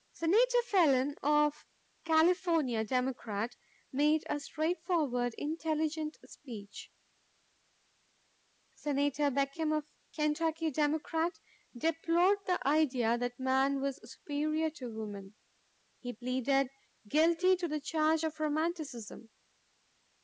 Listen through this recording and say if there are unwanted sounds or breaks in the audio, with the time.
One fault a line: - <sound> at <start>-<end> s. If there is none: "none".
none